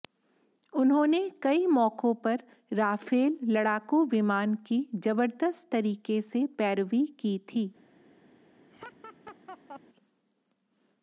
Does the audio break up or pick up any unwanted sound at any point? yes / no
yes